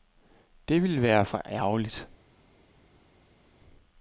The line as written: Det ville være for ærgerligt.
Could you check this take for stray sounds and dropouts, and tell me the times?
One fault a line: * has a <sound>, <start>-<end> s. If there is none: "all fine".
all fine